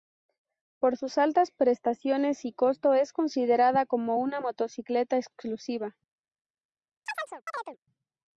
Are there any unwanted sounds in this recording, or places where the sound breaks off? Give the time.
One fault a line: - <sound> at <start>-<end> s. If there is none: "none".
- chirp at 7.1-7.8 s